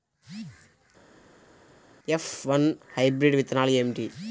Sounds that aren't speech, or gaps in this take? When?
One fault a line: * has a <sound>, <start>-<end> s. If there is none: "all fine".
all fine